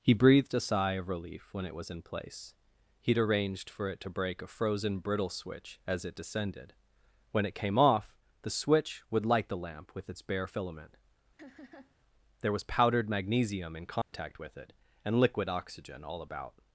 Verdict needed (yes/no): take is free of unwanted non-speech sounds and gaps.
no